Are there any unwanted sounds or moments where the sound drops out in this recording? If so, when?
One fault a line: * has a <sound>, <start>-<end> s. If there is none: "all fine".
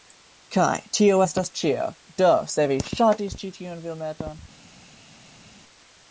all fine